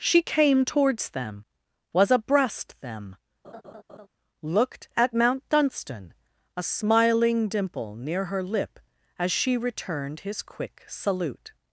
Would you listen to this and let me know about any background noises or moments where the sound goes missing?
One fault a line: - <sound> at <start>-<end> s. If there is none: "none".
- laugh at 3.4-4.1 s